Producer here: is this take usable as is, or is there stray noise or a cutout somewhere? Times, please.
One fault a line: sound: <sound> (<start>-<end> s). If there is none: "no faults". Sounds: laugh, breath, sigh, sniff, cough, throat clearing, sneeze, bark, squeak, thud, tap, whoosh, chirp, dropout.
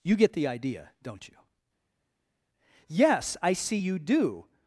no faults